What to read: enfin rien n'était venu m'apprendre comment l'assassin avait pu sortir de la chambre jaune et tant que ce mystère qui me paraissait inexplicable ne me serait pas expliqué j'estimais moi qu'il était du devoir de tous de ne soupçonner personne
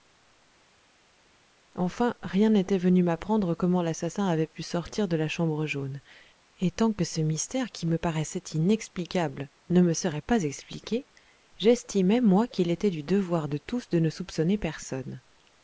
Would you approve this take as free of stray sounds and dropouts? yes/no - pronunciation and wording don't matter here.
yes